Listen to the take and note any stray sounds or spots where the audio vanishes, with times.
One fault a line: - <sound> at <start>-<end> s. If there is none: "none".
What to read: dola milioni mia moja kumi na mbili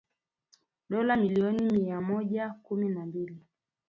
none